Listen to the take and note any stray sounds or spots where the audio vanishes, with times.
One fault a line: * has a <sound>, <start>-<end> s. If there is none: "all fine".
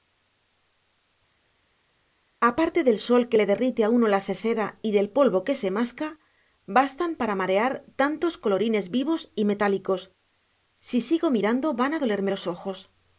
all fine